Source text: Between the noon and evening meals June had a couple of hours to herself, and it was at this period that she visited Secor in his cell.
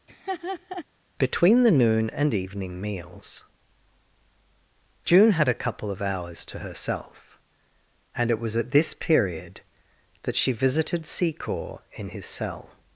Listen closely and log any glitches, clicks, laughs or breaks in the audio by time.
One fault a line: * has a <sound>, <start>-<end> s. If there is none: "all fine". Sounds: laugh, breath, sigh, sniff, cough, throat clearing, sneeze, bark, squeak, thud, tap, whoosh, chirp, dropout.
* has a laugh, 0.1-0.8 s